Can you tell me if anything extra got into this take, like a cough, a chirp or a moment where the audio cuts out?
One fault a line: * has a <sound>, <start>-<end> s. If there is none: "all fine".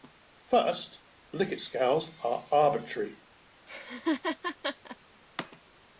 * has a laugh, 3.7-5.0 s